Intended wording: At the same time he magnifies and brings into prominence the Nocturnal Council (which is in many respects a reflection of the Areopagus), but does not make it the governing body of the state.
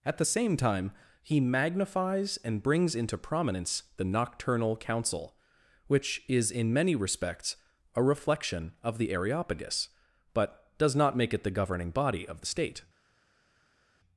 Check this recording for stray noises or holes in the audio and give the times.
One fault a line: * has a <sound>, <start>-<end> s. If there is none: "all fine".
all fine